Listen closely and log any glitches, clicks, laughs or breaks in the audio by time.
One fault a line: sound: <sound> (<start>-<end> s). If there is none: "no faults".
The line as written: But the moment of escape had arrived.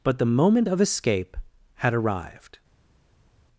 no faults